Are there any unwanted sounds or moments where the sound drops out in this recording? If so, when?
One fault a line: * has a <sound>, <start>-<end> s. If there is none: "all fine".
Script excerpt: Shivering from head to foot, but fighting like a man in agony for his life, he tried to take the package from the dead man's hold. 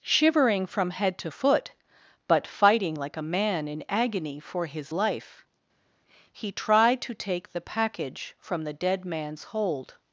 all fine